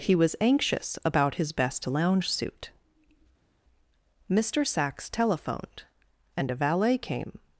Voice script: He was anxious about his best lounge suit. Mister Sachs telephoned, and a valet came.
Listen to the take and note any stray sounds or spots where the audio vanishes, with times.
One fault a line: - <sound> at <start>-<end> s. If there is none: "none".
none